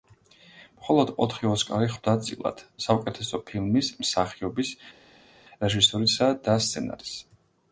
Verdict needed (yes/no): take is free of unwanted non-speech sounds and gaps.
yes